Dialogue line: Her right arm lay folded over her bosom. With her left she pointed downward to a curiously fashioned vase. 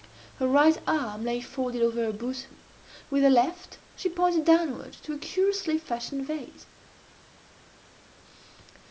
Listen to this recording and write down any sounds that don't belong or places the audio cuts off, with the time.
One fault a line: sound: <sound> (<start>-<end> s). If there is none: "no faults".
no faults